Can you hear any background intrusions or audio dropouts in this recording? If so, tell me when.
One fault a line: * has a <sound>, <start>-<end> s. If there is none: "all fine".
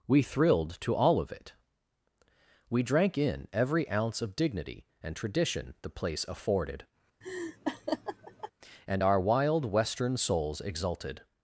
* has a laugh, 7.2-8.5 s